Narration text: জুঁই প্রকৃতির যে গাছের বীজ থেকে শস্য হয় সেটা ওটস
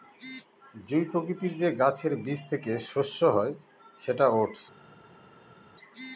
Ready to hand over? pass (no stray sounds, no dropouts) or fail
pass